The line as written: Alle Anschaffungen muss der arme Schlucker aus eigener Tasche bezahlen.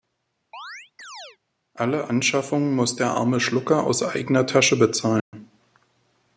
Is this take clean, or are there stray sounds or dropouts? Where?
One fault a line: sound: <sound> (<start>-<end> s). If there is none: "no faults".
sound: chirp (0.5-1.4 s)
sound: dropout (5.2-5.3 s)